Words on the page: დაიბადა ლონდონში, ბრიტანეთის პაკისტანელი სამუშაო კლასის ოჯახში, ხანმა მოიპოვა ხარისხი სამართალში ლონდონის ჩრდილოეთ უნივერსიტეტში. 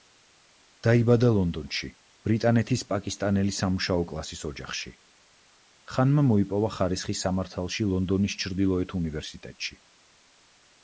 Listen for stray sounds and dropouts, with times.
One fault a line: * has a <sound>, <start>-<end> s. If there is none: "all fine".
all fine